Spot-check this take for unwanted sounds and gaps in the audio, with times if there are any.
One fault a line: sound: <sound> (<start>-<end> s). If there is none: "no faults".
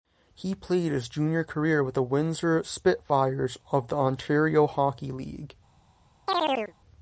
sound: chirp (6.3-6.7 s)